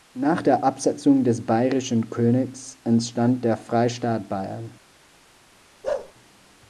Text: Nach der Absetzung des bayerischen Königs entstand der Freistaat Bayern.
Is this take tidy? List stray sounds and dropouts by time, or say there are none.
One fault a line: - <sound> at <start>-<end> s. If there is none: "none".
- bark at 5.8-6.1 s